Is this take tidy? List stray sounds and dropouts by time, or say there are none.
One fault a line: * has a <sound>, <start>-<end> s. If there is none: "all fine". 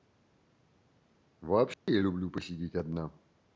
* has a dropout, 1.7-1.9 s